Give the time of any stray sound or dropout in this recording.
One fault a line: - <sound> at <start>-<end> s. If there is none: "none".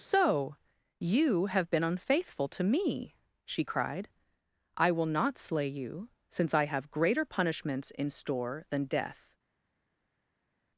none